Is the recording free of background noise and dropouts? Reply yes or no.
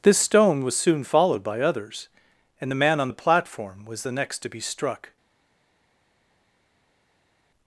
yes